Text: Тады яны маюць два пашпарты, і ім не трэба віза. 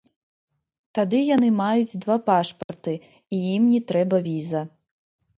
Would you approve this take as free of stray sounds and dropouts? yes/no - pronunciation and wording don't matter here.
no